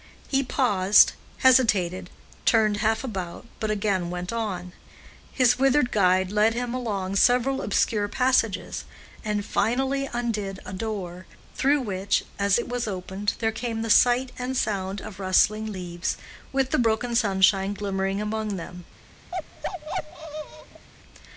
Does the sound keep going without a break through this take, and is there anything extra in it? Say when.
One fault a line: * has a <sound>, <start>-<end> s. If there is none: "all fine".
* has a bark, 19.3-20.9 s